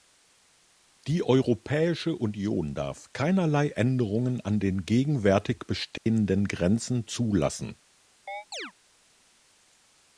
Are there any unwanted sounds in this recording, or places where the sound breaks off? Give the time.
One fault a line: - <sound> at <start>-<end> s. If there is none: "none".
- dropout at 6.0-6.1 s
- chirp at 8.3-8.7 s